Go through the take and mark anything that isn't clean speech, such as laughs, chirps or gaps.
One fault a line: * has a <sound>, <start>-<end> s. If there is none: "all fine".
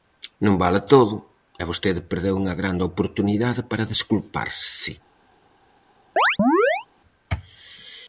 * has a chirp, 6.2-6.9 s